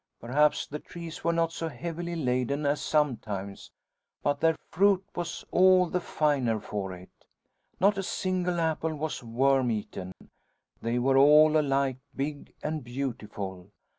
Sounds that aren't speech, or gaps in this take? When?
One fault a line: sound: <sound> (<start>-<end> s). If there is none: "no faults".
sound: dropout (10.1-10.2 s)